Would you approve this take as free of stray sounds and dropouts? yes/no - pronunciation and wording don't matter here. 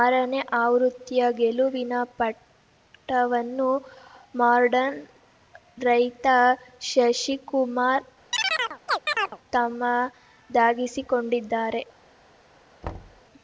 no